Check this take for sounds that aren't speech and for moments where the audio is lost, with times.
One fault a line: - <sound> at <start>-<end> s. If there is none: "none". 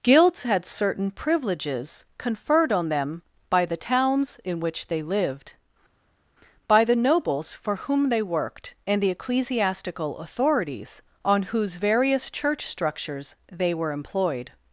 none